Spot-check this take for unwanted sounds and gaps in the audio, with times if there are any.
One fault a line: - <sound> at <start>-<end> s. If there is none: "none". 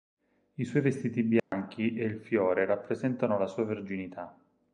- dropout at 1.4-1.5 s